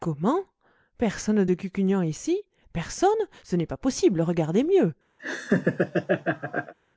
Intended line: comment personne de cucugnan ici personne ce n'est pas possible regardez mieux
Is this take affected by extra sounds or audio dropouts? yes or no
yes